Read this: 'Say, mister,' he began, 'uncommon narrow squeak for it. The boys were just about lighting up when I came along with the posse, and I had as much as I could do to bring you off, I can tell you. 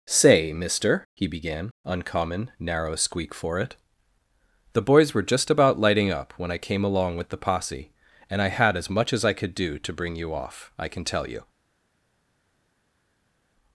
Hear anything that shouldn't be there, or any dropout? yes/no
no